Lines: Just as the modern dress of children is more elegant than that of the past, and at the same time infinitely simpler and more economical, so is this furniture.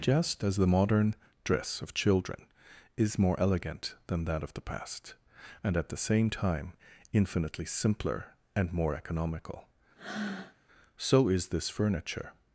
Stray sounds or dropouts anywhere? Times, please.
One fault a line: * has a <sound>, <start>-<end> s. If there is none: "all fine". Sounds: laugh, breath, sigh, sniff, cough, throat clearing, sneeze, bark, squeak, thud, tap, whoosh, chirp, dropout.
* has a breath, 10.0-10.6 s